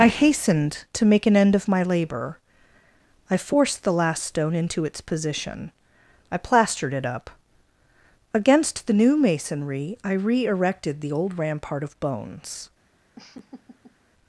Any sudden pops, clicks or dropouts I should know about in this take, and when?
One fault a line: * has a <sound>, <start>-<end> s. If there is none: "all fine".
* has a laugh, 13.2-14.0 s